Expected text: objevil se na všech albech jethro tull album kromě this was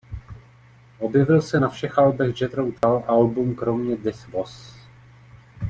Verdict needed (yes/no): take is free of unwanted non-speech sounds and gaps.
no